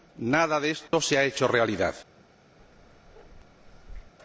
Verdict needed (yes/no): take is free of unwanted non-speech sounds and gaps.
no